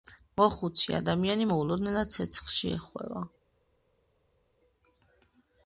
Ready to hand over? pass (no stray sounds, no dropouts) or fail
pass